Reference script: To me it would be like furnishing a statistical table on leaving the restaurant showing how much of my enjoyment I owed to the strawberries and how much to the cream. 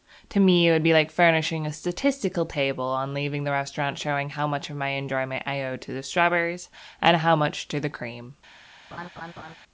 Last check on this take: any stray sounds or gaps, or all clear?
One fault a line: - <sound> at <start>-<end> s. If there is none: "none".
- laugh at 8.9-9.6 s